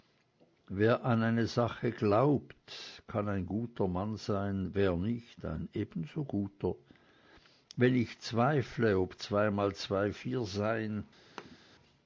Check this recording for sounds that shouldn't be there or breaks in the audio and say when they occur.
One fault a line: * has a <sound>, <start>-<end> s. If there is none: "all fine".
* has a thud, 11.4-11.6 s